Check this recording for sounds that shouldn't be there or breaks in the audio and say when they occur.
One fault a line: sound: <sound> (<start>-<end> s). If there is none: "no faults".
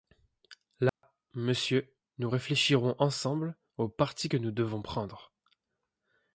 sound: dropout (0.9-1.0 s)